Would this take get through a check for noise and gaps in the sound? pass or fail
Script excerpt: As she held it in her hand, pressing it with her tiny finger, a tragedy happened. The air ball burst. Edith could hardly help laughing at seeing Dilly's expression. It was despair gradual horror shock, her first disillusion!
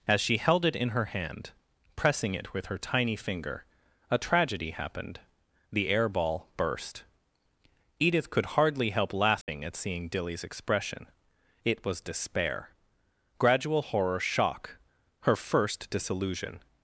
fail